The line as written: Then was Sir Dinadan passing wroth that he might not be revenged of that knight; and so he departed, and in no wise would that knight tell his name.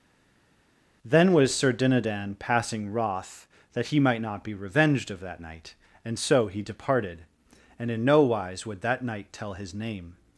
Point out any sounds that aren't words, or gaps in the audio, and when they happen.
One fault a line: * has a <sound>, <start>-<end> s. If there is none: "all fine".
all fine